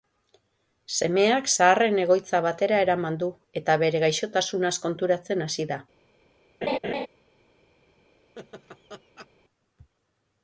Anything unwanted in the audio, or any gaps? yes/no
yes